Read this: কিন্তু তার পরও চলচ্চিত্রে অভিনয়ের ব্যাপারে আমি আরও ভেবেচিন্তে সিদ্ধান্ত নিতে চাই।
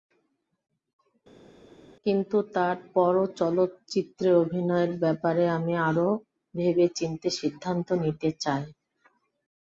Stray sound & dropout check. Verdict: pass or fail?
pass